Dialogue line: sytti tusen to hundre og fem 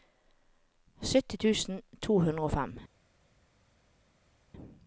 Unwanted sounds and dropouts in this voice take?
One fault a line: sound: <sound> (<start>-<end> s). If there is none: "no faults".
no faults